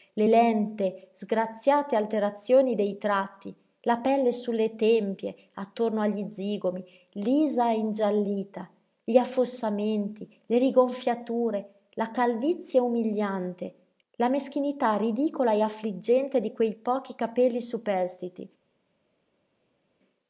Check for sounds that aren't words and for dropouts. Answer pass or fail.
pass